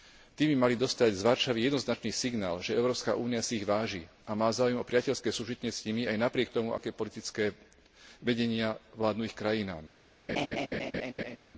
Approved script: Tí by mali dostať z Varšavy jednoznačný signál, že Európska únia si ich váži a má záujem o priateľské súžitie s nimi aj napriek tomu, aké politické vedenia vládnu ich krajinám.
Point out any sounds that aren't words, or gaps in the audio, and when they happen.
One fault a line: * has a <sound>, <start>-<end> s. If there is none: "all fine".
* has a laugh, 10.3-11.4 s